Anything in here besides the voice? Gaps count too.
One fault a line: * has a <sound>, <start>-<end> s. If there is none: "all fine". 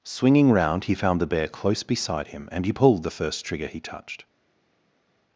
all fine